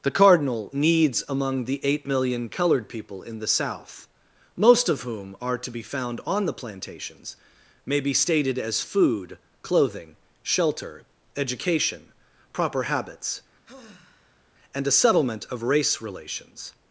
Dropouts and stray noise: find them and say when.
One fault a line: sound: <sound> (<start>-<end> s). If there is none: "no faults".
sound: sigh (13.6-14.5 s)